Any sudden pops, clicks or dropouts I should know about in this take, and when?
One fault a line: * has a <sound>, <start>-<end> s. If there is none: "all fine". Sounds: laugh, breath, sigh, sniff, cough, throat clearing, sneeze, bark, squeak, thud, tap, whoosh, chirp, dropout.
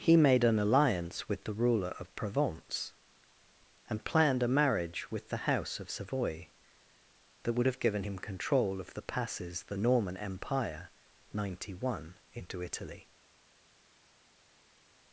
all fine